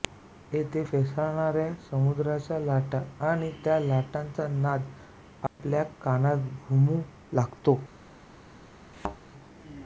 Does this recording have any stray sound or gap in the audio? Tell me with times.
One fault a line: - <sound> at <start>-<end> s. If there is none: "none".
- dropout at 5.5-5.6 s
- thud at 8.9-9.2 s